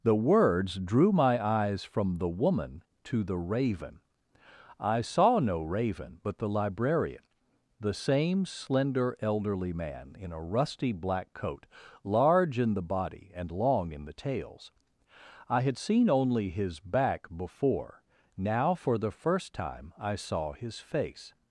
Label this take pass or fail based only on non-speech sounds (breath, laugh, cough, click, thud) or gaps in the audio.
pass